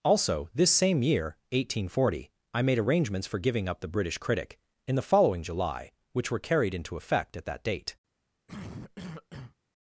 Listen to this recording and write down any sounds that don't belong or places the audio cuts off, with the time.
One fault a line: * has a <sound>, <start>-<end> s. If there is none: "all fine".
* has a cough, 8.5-9.6 s